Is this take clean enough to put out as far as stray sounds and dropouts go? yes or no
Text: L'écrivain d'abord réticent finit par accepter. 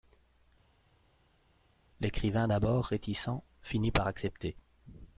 yes